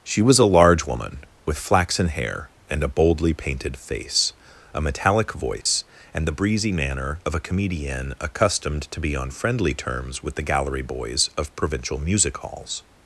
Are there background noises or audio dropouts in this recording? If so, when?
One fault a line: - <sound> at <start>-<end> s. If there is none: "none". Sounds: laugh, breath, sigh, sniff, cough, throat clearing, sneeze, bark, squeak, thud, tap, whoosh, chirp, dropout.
- dropout at 5.6-5.7 s